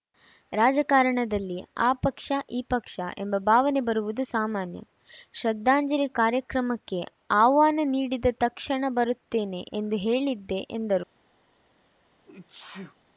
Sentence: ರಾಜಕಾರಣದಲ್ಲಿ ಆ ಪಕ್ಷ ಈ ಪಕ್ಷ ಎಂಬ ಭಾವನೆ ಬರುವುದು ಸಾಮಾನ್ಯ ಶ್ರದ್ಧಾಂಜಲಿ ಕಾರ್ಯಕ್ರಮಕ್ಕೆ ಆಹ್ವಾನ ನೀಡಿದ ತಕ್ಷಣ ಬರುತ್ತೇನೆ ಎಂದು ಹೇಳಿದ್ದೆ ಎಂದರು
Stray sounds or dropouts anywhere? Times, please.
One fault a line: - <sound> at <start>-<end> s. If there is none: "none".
- sneeze at 12.2-13.0 s